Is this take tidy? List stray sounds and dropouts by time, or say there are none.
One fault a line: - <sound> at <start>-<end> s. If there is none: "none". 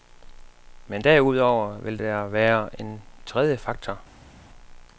none